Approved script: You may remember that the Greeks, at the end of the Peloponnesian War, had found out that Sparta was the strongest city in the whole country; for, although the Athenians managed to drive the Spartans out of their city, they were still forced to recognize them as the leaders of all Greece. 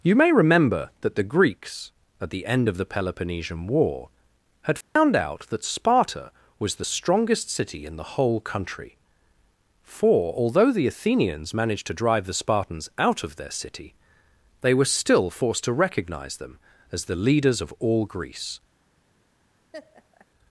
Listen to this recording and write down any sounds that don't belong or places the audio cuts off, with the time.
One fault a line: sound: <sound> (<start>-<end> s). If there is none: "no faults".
sound: dropout (4.8-5.0 s)
sound: laugh (19.7-20.3 s)